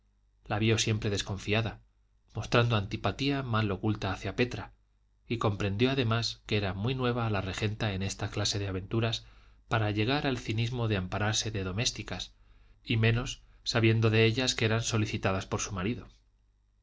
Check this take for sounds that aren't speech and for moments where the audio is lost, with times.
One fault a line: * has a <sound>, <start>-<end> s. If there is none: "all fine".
all fine